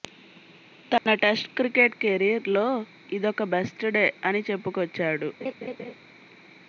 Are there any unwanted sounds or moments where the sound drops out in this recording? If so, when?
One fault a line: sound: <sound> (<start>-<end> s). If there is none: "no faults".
sound: dropout (1.0-1.1 s)
sound: laugh (5.4-5.9 s)